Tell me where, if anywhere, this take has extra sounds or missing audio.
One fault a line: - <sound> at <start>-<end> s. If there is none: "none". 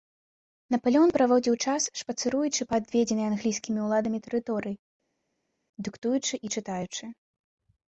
none